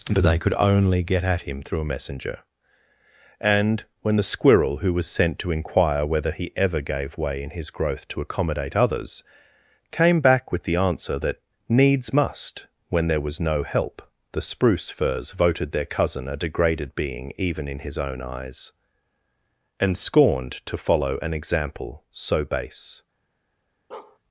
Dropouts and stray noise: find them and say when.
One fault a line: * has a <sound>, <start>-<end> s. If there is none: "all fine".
* has a bark, 23.9-24.2 s